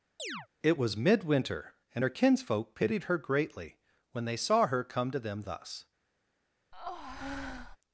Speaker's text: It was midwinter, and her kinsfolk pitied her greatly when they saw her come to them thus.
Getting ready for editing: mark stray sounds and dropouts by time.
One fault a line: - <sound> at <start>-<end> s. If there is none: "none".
- chirp at 0.2-0.5 s
- breath at 6.7-7.8 s